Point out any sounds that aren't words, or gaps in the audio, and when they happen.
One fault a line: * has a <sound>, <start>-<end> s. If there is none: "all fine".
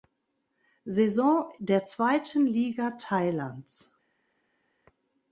all fine